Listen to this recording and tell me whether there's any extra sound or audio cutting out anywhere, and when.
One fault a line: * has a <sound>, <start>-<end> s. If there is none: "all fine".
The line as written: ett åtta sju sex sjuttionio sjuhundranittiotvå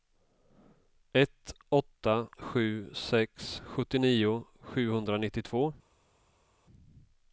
all fine